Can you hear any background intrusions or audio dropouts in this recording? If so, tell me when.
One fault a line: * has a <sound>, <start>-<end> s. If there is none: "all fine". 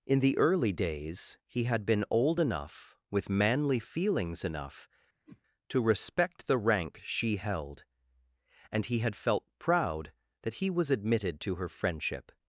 * has a whoosh, 5.3-5.4 s